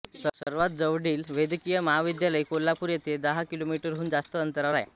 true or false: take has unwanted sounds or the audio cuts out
true